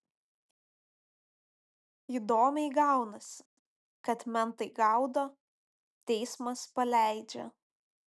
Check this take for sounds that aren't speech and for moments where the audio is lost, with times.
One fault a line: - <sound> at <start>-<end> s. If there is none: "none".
none